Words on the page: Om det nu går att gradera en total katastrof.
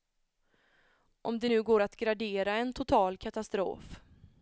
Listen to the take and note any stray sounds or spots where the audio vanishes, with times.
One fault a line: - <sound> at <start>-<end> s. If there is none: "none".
none